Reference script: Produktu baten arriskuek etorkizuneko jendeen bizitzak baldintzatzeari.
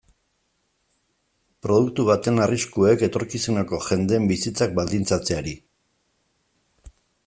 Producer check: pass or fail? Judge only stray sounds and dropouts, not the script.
pass